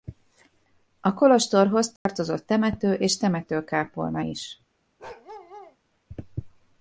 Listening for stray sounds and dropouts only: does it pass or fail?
fail